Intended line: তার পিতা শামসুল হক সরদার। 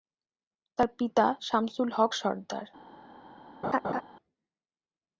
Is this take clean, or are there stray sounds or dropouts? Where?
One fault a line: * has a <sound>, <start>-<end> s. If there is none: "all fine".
* has a laugh, 3.6-4.0 s